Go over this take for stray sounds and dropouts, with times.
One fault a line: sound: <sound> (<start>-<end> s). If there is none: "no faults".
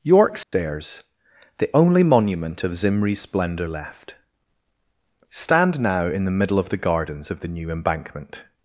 sound: dropout (0.4-0.5 s)